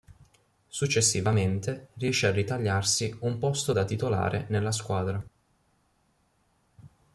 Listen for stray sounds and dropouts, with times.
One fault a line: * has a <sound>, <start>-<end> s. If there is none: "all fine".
all fine